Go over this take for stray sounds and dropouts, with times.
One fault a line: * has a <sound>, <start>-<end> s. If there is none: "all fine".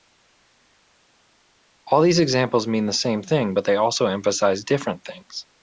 all fine